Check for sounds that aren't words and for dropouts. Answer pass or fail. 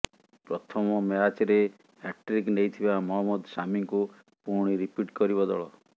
pass